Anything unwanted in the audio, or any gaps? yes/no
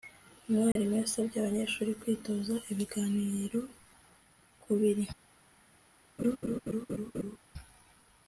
yes